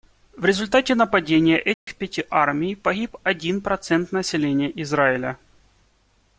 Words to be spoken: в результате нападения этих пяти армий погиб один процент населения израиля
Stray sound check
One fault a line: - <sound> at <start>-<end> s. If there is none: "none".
- dropout at 1.7-1.9 s